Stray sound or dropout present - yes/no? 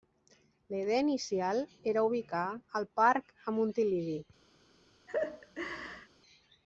yes